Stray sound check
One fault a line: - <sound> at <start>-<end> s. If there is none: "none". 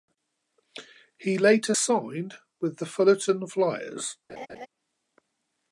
- laugh at 4.3-4.7 s